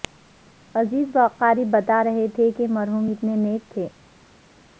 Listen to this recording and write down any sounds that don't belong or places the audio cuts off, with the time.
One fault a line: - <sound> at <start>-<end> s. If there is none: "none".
none